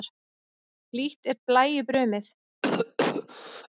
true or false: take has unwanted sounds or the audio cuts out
true